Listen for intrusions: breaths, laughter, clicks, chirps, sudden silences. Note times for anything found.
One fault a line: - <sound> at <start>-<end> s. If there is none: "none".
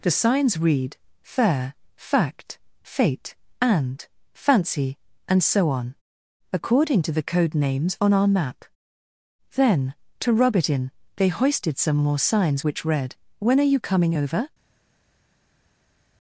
none